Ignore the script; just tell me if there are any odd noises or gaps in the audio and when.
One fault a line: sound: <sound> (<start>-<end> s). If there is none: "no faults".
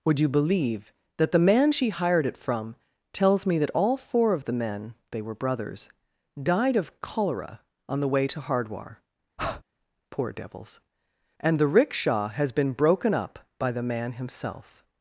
sound: breath (9.4-9.6 s)